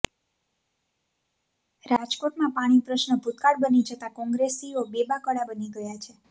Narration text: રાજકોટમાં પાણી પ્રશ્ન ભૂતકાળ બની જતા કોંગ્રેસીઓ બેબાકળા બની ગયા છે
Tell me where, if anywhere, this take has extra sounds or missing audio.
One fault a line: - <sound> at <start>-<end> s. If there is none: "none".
none